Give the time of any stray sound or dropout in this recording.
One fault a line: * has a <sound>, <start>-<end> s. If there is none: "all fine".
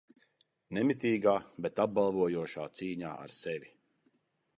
all fine